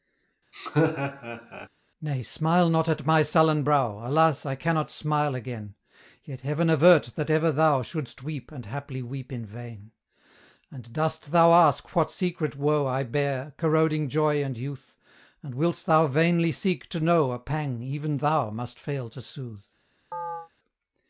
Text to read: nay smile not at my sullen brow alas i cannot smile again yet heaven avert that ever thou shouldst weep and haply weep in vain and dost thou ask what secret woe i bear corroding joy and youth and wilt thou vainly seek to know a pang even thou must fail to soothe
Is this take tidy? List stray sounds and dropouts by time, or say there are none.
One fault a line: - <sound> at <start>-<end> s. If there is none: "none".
- laugh at 0.5-1.7 s
- chirp at 20.1-20.5 s